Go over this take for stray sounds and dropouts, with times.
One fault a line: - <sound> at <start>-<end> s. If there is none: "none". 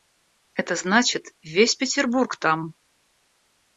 none